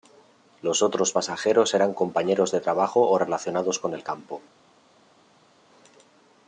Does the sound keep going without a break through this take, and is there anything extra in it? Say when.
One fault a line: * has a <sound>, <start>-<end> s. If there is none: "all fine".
all fine